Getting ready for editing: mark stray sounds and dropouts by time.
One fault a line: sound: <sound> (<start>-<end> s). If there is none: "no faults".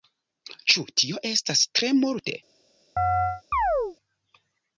sound: chirp (3.0-4.0 s)